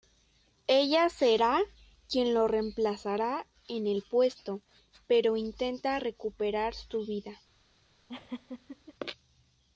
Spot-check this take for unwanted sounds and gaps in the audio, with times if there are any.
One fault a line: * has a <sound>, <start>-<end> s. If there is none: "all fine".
* has a laugh, 8.1-8.9 s